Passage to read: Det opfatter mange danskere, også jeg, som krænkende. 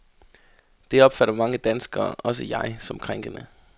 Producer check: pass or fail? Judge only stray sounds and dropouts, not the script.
pass